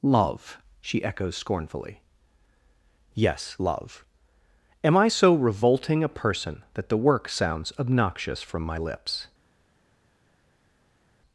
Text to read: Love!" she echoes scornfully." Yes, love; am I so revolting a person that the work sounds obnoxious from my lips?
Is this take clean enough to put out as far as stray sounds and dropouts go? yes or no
yes